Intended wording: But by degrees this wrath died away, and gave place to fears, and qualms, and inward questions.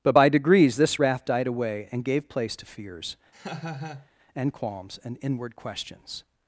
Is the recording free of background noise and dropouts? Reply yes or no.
no